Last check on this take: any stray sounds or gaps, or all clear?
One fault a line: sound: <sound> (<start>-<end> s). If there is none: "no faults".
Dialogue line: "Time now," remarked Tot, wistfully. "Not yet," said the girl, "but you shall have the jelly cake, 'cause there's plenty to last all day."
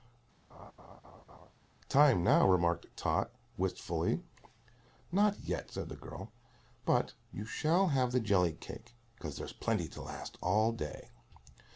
sound: laugh (0.5-1.5 s)